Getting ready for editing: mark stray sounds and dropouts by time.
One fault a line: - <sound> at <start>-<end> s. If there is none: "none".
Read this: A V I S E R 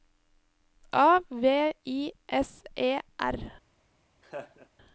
- laugh at 4.2-4.7 s